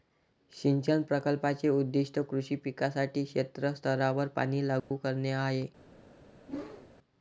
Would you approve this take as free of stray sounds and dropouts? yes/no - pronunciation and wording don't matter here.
no